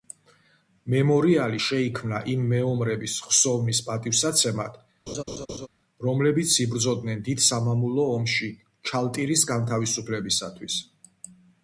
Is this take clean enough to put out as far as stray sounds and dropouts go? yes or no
no